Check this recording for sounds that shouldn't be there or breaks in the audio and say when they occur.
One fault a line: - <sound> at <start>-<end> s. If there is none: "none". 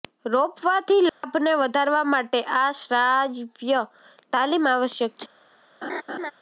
- dropout at 1.1-1.2 s
- laugh at 5.8-6.3 s